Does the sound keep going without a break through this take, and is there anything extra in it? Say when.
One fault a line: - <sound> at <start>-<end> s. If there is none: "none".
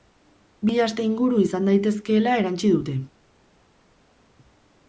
none